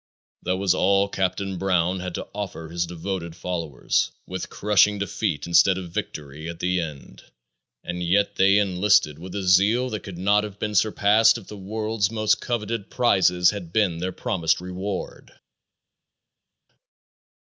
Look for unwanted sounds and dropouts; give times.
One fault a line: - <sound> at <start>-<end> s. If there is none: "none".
none